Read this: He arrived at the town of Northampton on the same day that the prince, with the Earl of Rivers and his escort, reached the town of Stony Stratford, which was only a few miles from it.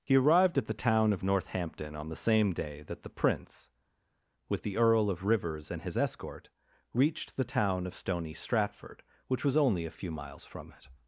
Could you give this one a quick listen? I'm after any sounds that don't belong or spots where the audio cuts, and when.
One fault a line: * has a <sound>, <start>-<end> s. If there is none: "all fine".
all fine